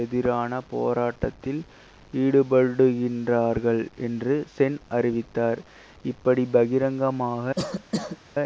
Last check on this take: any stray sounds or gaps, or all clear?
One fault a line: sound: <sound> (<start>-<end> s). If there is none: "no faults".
sound: cough (7.6-8.2 s)